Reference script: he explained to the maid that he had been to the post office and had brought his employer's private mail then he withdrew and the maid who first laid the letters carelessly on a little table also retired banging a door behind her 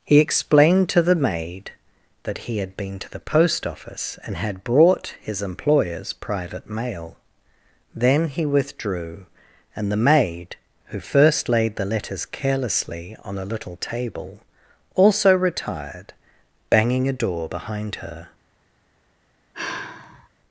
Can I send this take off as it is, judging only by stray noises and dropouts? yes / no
no